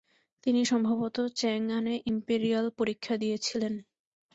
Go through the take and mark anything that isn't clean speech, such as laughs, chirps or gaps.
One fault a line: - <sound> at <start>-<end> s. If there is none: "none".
none